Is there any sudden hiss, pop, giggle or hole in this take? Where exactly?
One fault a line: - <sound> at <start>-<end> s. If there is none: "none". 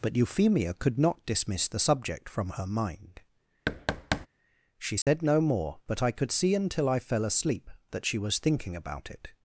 - thud at 3.7-4.3 s
- dropout at 5.0-5.1 s